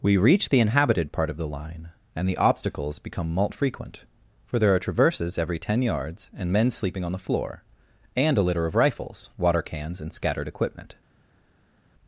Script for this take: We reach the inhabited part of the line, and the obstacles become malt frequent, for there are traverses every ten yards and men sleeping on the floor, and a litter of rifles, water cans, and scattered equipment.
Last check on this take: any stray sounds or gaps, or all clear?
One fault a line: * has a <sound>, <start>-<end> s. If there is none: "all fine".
all fine